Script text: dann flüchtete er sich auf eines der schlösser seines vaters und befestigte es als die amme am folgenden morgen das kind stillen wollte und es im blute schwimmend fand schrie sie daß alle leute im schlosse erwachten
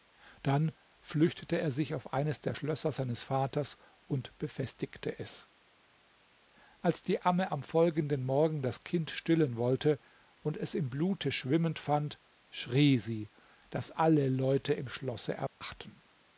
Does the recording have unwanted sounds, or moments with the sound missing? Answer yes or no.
yes